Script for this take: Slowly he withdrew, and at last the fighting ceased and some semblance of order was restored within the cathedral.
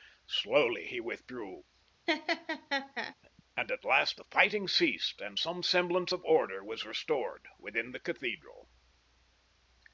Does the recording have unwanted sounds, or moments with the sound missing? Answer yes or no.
yes